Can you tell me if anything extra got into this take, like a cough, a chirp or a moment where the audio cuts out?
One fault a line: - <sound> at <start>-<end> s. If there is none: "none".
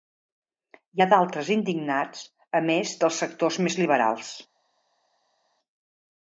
none